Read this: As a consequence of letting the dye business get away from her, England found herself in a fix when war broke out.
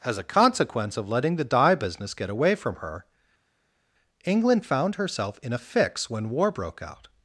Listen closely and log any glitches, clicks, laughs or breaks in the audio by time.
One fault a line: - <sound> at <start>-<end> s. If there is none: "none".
none